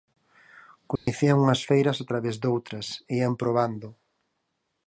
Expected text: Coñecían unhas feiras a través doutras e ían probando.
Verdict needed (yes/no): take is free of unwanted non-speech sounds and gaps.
no